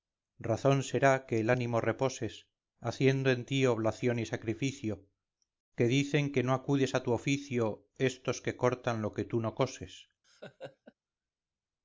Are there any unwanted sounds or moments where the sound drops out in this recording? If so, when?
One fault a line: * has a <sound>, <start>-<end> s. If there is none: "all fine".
* has a laugh, 10.2-10.9 s